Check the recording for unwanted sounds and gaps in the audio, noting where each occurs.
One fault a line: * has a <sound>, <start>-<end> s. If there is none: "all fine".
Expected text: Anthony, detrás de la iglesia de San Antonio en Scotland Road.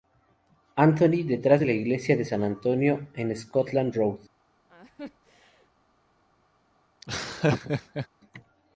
* has a laugh, 4.7-5.7 s
* has a laugh, 7.0-8.1 s